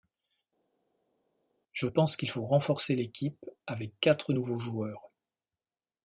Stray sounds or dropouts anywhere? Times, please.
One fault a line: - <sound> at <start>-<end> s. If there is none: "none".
none